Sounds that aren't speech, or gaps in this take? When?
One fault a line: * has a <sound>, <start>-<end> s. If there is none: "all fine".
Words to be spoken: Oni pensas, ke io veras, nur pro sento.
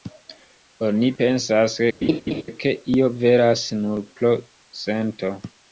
* has a laugh, 2.0-2.4 s